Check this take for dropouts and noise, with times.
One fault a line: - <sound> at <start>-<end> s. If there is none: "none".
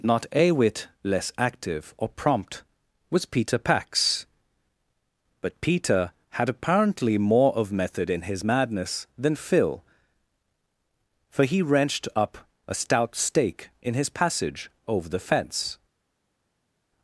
none